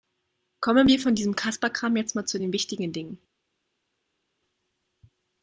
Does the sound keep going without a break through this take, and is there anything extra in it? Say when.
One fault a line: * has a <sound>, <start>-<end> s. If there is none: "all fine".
all fine